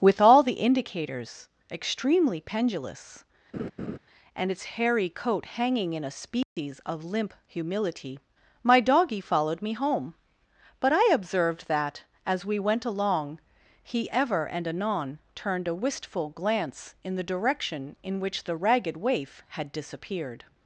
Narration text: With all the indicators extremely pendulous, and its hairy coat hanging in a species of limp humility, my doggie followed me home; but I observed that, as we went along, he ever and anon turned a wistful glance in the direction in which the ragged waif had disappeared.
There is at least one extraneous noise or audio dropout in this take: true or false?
true